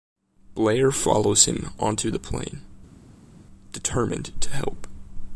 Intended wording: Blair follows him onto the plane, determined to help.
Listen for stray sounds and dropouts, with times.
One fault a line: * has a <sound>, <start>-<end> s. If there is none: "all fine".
all fine